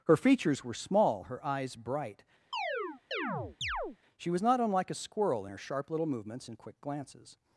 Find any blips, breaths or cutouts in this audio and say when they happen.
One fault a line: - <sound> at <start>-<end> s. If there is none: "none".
- chirp at 2.5-4.0 s